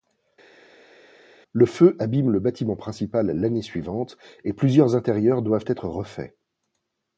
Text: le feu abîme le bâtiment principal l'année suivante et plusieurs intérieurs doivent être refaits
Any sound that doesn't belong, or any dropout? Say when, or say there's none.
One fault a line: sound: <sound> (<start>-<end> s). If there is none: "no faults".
no faults